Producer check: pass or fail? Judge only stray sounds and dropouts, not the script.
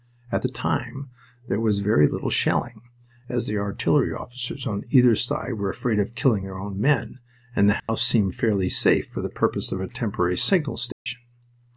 fail